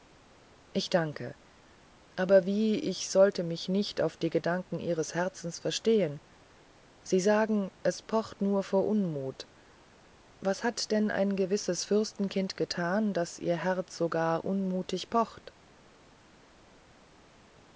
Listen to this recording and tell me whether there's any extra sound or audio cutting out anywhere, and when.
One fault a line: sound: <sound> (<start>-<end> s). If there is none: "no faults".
no faults